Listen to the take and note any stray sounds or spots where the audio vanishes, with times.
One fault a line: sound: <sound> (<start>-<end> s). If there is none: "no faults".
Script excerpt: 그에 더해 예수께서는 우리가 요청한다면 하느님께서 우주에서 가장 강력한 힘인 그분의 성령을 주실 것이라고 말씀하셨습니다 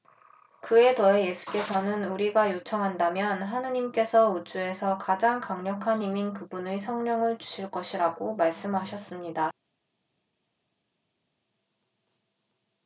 no faults